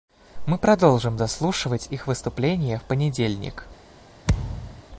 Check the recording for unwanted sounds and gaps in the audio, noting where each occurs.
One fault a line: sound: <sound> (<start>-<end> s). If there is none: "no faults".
sound: thud (4.3-4.8 s)